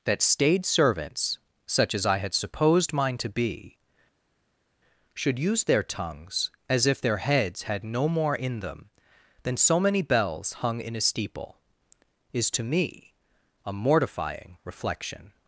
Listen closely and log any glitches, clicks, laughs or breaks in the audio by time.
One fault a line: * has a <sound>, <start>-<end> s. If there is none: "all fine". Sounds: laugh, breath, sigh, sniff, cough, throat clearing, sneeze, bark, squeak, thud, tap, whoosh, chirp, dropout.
all fine